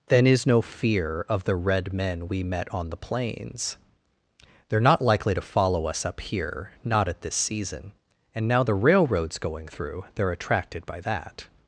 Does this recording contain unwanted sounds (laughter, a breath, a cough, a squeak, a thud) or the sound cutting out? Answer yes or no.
no